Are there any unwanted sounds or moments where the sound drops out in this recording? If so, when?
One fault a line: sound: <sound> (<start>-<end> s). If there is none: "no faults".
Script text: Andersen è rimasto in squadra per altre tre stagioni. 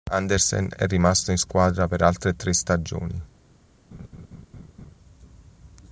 sound: laugh (3.9-5.0 s)